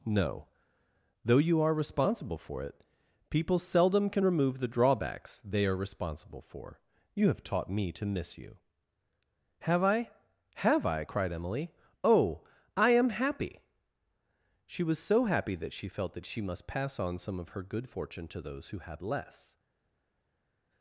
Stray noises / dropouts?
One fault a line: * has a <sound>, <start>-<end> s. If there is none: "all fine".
all fine